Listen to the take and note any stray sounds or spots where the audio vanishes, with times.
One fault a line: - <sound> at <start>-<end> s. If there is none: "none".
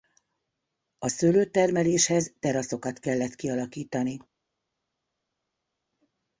none